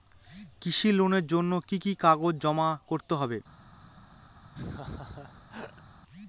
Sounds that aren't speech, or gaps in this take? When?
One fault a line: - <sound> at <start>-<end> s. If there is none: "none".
- laugh at 4.5-5.8 s